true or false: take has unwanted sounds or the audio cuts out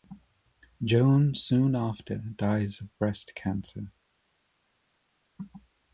false